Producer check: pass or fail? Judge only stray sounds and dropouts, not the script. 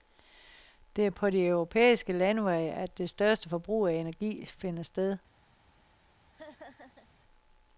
fail